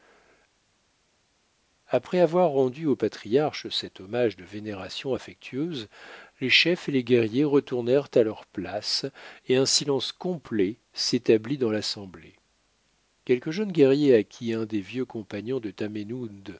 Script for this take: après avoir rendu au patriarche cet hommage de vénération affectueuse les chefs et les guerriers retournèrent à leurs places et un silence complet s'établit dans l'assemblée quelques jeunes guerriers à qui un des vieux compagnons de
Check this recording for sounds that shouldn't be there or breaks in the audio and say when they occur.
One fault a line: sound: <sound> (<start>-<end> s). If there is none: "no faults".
no faults